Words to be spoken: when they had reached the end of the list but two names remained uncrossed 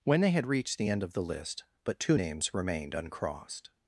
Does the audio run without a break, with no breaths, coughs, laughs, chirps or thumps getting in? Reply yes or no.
yes